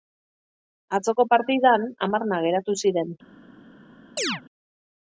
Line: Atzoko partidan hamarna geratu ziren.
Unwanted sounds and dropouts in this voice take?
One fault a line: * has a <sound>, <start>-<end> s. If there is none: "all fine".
* has a chirp, 4.2-4.4 s